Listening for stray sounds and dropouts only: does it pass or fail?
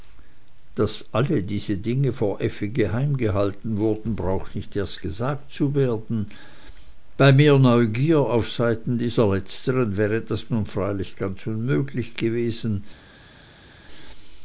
pass